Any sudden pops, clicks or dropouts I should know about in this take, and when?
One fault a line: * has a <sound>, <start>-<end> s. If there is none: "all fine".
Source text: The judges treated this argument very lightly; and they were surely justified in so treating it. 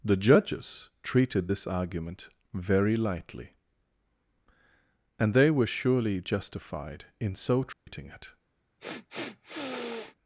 * has a dropout, 7.7-7.9 s
* has a sniff, 8.8-10.2 s